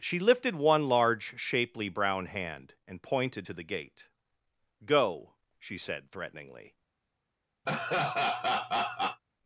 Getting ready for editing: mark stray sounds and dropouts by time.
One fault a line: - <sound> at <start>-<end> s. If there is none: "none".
- laugh at 7.7-9.2 s